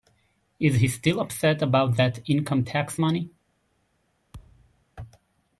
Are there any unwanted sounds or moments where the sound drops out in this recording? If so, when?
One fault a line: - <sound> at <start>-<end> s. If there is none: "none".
- thud at 4.3-4.8 s